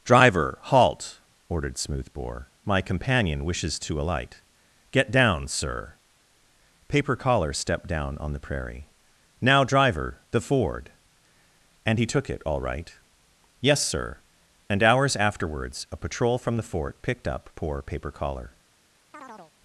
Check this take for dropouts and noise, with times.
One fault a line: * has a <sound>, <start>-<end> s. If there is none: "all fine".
* has a chirp, 19.1-19.5 s